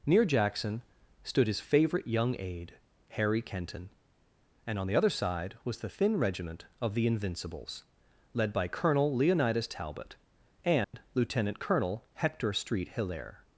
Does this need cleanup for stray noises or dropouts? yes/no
yes